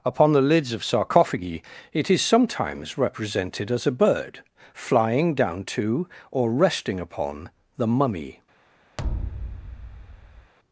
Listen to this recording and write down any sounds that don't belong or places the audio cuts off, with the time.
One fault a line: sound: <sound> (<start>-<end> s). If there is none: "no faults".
sound: thud (9.0-10.5 s)